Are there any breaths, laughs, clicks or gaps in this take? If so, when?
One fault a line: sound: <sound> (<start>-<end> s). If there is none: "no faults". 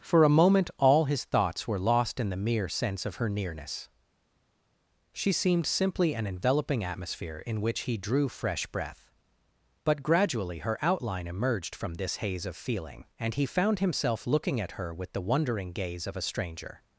no faults